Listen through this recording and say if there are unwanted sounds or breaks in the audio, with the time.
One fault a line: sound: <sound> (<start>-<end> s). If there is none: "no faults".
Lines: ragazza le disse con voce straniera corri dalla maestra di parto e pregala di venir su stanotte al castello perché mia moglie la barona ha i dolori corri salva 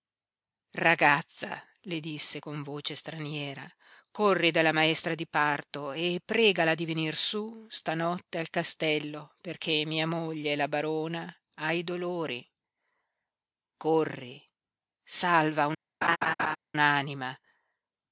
sound: laugh (16.0-16.6 s)